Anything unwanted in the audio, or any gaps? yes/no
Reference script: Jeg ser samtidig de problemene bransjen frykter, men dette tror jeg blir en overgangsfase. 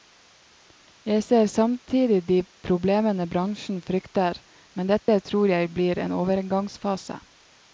yes